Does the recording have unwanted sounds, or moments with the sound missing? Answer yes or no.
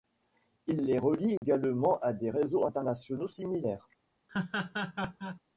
yes